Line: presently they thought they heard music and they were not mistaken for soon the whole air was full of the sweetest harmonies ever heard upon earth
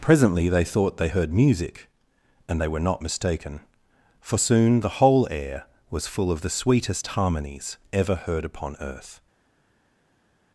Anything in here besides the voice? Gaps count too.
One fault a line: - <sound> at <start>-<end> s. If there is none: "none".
none